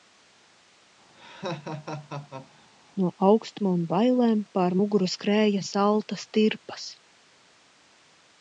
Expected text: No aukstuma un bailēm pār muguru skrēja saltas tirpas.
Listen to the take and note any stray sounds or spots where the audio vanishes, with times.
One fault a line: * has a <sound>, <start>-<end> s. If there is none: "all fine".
* has a laugh, 1.1-2.7 s